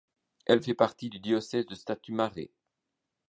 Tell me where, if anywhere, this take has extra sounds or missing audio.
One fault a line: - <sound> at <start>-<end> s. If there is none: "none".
none